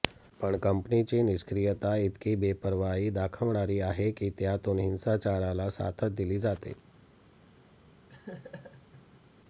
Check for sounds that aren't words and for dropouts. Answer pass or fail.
fail